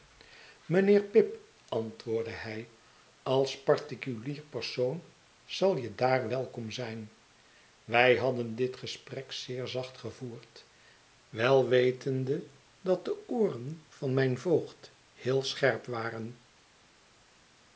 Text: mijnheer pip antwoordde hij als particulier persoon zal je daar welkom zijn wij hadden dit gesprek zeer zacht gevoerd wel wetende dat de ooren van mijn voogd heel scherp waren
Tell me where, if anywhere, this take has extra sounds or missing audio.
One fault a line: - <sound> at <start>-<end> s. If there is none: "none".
none